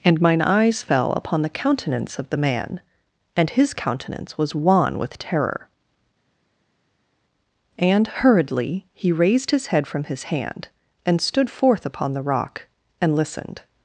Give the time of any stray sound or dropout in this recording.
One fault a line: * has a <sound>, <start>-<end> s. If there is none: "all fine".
all fine